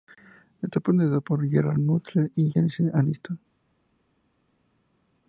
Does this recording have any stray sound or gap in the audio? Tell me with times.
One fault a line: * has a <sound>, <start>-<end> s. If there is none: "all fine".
all fine